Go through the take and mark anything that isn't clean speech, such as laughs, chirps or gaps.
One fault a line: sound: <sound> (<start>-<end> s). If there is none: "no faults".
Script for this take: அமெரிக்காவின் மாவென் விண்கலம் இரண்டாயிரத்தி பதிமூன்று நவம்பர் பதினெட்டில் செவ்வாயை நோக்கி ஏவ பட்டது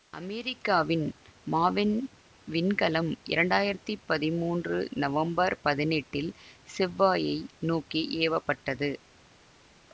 no faults